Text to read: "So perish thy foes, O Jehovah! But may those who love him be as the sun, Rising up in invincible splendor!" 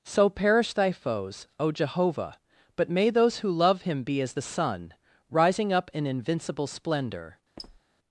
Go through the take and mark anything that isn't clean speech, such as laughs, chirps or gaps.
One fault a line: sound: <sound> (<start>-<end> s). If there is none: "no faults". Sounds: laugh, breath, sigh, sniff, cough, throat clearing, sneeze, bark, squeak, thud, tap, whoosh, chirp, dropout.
sound: squeak (7.6-7.8 s)